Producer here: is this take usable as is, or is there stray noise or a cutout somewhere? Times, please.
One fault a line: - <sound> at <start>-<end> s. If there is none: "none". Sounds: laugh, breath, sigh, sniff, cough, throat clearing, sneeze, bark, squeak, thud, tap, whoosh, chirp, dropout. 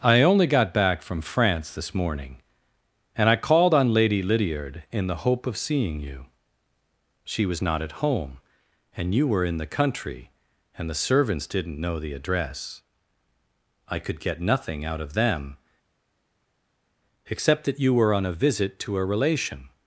none